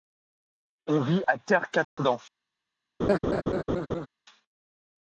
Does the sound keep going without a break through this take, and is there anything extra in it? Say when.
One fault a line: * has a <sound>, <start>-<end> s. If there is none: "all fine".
* has a dropout, 1.8-2.0 s
* has a laugh, 3.0-4.1 s